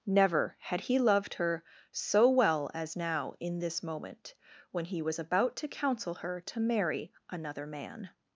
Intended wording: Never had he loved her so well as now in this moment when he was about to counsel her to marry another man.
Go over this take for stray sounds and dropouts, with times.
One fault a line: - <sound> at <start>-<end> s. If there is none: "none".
none